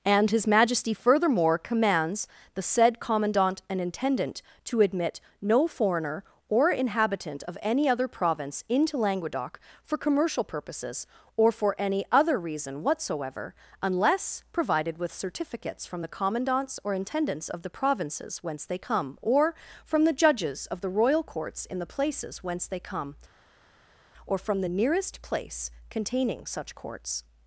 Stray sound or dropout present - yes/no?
no